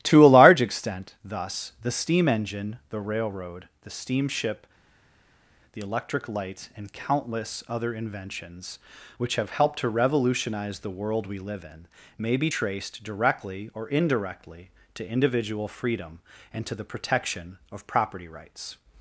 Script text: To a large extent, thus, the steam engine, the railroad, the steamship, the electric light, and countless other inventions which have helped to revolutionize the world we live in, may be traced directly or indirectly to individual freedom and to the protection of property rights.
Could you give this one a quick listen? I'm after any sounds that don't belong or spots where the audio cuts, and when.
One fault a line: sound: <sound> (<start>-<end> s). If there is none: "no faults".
no faults